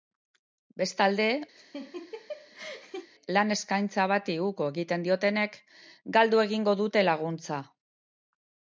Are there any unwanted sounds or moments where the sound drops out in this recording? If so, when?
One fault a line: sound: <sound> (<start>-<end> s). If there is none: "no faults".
sound: laugh (1.6-3.1 s)